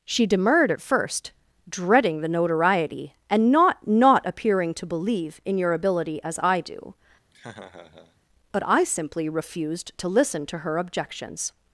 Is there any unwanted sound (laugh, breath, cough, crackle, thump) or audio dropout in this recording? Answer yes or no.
yes